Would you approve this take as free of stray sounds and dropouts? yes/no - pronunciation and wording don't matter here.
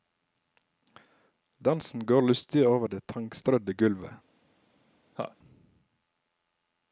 no